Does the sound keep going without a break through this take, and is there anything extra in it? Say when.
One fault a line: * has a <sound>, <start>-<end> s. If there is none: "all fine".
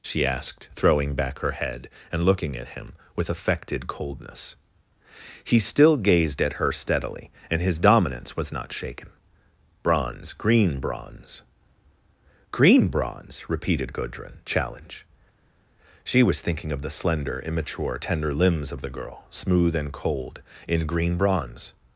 all fine